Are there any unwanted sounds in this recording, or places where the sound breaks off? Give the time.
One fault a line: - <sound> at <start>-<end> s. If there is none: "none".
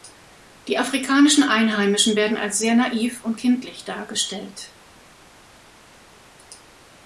none